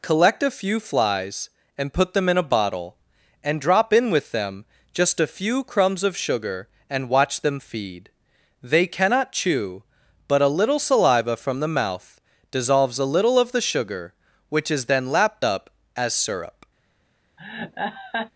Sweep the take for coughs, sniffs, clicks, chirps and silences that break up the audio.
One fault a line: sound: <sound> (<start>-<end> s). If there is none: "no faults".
sound: laugh (17.4-18.3 s)